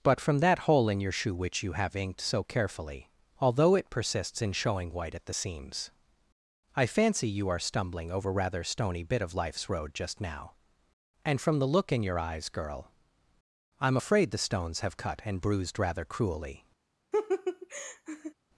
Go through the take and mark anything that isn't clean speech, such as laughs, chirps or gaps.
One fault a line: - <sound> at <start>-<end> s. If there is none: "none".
- laugh at 17.1-18.3 s